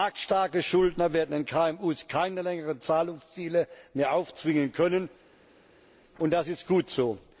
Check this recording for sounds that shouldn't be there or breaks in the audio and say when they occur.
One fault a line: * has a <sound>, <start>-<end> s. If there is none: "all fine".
all fine